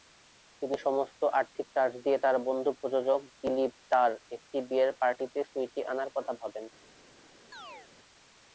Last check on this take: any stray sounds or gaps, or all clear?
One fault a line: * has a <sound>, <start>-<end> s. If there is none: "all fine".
* has a chirp, 7.5-7.9 s